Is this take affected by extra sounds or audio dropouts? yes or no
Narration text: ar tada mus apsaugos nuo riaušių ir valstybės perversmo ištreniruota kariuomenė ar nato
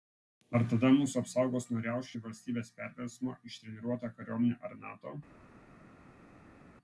no